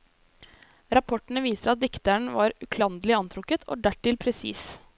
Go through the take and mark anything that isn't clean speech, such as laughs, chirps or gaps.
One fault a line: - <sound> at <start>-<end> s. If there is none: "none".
none